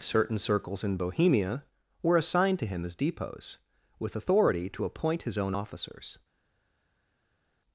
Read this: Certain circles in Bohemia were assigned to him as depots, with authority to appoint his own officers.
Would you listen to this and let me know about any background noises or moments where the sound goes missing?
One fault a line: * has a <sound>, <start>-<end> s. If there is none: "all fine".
all fine